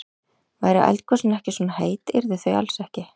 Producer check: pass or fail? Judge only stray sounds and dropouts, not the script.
pass